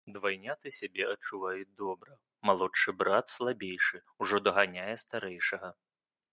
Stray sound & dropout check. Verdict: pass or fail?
pass